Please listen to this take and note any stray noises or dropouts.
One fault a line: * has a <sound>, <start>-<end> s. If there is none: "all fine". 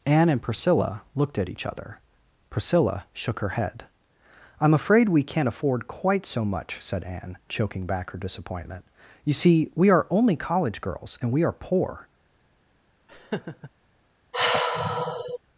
* has a laugh, 13.1-13.7 s
* has a sigh, 14.3-15.4 s